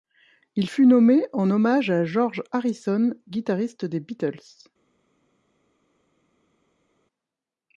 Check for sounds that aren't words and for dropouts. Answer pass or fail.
pass